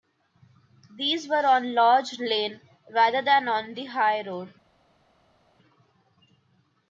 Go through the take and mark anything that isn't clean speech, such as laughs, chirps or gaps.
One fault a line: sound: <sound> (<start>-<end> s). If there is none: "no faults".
no faults